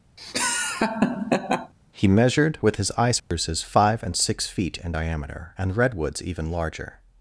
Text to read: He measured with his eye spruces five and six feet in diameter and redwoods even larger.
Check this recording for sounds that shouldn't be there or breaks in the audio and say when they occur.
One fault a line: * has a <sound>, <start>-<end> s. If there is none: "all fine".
* has a laugh, 0.2-1.7 s
* has a dropout, 3.2-3.3 s